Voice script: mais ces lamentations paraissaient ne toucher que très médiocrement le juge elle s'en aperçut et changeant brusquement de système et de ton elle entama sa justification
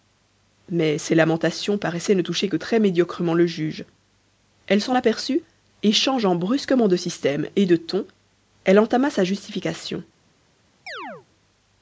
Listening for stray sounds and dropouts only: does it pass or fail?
fail